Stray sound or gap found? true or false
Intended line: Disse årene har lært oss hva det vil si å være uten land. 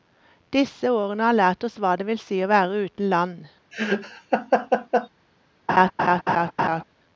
true